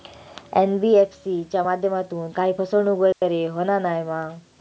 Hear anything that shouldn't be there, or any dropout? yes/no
yes